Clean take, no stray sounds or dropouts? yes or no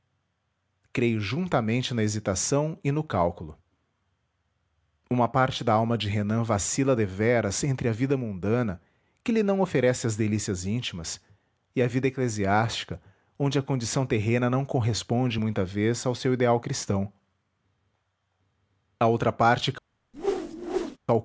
no